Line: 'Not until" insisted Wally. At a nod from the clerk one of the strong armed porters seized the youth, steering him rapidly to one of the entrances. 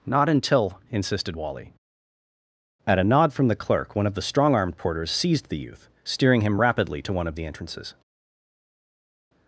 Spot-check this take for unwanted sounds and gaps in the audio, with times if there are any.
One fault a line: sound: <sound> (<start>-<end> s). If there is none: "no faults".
no faults